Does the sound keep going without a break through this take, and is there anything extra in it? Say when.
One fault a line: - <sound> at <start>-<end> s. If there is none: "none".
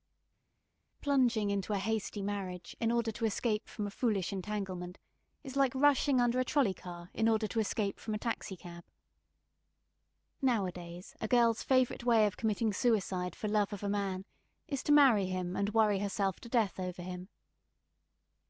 none